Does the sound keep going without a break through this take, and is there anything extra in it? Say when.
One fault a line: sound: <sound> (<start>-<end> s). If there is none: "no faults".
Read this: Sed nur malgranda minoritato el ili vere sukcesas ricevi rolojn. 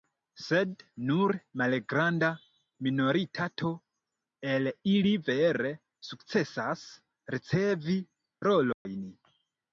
sound: dropout (8.7-8.9 s)